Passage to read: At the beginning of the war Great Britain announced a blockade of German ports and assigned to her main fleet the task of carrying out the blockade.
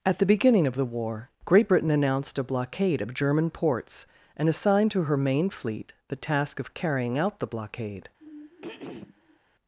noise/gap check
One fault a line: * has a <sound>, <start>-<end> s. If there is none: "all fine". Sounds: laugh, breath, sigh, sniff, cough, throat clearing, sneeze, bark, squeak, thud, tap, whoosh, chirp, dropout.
* has a throat clearing, 8.2-9.4 s